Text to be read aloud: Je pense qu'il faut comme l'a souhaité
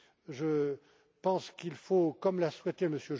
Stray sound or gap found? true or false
false